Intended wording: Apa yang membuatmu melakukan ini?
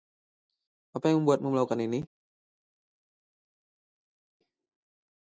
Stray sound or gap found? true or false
false